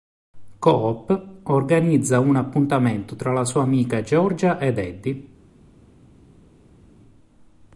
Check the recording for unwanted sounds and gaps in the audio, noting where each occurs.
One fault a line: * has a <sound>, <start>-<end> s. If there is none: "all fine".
all fine